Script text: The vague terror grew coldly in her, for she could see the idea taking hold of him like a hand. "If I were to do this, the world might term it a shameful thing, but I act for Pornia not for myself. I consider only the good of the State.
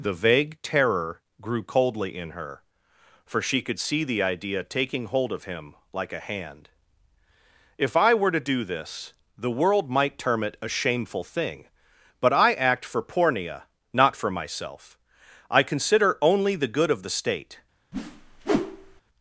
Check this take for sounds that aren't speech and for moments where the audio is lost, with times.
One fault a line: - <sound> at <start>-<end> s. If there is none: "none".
- whoosh at 17.9-19.0 s